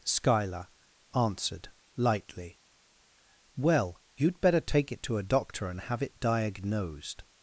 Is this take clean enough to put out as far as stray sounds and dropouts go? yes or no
yes